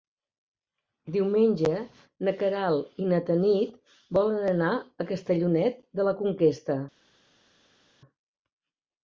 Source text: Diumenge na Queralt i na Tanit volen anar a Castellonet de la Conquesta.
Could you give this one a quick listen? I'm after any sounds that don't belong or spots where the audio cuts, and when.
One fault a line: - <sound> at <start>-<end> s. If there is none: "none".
none